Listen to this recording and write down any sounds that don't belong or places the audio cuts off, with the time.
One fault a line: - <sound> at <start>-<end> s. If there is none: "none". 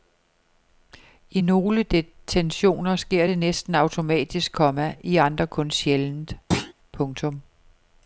- thud at 6.5-6.7 s